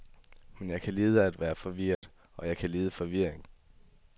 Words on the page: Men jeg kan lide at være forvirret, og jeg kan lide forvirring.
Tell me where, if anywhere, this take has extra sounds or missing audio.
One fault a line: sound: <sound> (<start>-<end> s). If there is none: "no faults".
sound: dropout (1.9-2.0 s)